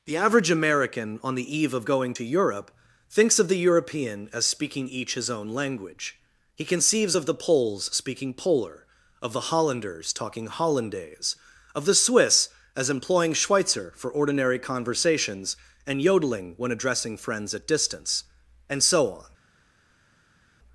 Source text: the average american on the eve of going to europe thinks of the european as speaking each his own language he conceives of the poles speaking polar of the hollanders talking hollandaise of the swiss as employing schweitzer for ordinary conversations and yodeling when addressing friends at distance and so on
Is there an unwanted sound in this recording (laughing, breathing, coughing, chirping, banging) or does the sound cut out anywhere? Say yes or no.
no